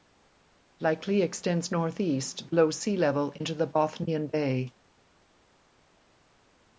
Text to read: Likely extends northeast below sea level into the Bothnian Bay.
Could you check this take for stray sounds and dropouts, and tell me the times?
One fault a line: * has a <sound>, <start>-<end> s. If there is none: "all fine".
all fine